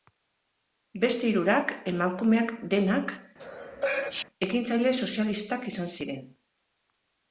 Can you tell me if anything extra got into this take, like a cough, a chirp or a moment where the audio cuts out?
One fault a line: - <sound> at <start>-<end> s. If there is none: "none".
- sneeze at 3.4-4.2 s